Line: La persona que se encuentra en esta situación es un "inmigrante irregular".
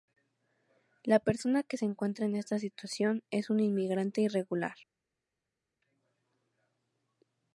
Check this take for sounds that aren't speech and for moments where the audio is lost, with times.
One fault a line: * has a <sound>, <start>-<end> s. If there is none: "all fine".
all fine